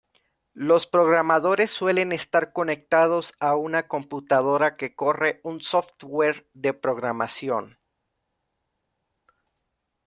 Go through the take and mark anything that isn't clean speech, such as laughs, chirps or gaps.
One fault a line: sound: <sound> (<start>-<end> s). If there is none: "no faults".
no faults